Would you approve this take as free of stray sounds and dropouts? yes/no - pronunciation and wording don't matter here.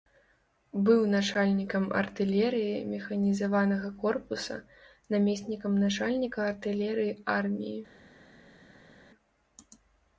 yes